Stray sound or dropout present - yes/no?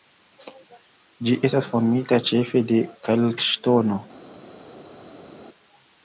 no